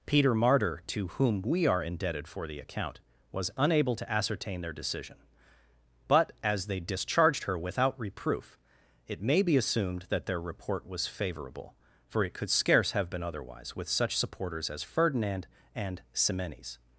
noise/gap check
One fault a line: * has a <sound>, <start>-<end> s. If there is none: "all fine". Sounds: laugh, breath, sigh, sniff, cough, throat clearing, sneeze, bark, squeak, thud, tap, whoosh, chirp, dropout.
all fine